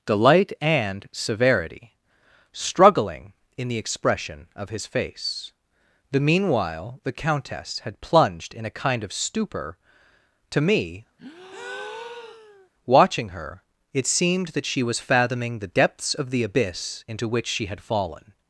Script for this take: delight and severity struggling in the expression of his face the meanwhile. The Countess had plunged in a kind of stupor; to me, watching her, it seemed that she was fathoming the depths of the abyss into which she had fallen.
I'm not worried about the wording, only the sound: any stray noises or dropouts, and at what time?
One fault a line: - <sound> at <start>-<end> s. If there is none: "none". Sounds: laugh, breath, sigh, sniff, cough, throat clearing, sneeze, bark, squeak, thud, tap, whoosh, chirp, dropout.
- breath at 11.2-12.7 s